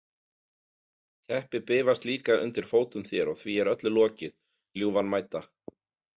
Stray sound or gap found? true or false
false